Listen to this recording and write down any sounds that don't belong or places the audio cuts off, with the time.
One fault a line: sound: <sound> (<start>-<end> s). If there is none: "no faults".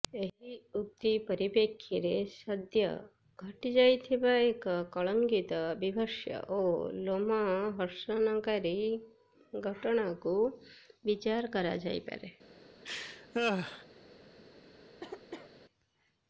sound: laugh (12.8-13.9 s)
sound: cough (15.0-15.5 s)